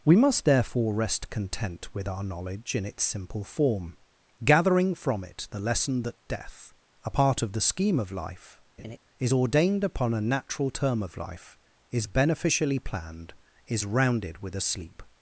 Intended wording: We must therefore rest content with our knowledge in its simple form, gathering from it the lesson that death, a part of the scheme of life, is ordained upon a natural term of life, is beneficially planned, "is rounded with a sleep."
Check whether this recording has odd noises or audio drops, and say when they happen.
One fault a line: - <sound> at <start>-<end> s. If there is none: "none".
- laugh at 8.8-9.0 s